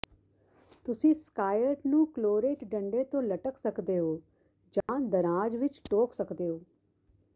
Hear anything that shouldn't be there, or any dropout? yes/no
yes